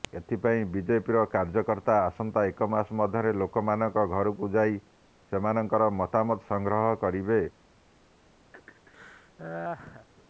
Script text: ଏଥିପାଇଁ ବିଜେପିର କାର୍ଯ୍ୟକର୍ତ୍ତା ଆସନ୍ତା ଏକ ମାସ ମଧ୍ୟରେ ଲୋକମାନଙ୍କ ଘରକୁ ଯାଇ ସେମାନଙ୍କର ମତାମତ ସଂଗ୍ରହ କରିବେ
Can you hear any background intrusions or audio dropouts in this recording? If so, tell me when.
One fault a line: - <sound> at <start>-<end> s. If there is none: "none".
- laugh at 8.5-10.1 s